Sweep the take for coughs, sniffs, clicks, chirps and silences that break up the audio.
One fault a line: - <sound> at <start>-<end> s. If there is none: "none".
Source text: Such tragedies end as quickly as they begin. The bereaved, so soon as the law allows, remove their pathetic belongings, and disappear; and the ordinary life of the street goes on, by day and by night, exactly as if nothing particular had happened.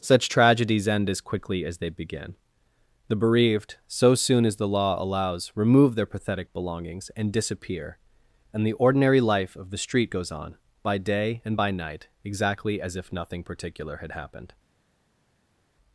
none